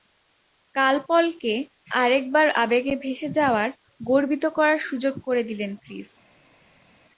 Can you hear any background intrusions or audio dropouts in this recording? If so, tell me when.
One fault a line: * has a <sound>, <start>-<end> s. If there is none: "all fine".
all fine